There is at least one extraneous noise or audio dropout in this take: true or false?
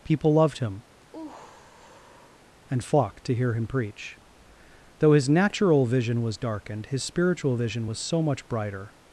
true